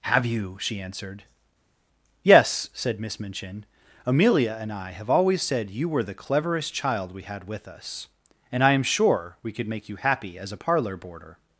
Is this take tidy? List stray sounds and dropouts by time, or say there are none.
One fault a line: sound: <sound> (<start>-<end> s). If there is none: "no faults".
no faults